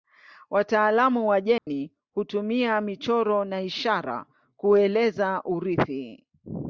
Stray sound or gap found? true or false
true